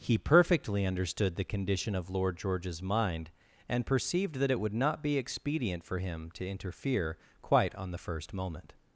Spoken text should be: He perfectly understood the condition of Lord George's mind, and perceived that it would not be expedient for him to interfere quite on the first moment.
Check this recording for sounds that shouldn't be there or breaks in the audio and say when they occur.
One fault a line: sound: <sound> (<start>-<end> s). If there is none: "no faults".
no faults